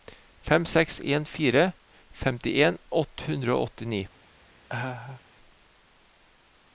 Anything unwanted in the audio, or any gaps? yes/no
yes